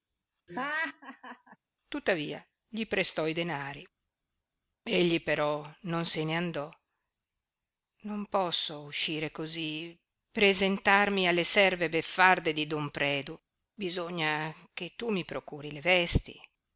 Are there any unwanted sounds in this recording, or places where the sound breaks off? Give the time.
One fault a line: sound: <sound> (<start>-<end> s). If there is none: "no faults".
sound: laugh (0.5-1.6 s)